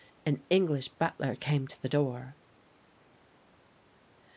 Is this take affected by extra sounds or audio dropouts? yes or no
no